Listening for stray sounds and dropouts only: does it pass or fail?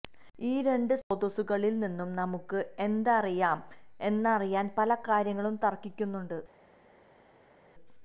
pass